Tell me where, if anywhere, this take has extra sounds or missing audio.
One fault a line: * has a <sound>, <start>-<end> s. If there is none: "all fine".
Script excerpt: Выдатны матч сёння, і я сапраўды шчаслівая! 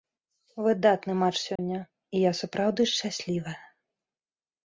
* has a dropout, 1.6-1.6 s